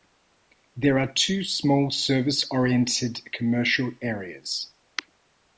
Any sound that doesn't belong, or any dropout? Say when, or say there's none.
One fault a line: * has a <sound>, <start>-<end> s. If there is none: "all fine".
all fine